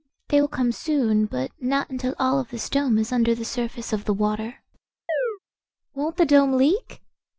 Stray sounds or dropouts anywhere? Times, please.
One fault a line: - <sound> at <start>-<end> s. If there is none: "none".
- chirp at 5.1-5.4 s